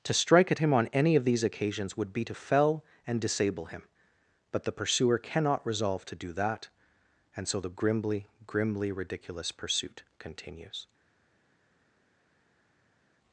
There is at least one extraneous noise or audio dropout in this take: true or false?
false